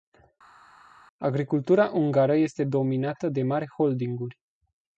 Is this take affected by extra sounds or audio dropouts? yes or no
no